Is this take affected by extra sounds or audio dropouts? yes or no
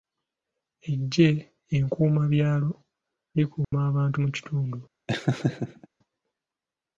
yes